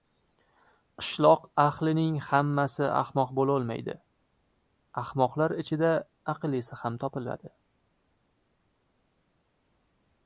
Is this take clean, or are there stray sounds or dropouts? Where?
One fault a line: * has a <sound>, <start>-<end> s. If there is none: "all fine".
all fine